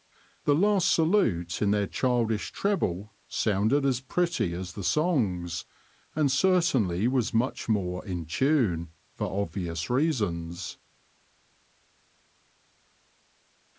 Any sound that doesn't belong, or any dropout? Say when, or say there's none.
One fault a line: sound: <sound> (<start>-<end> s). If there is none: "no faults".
no faults